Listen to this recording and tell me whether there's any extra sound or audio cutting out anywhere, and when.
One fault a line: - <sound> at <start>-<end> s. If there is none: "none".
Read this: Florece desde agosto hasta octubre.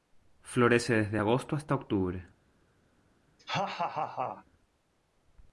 - laugh at 3.4-4.5 s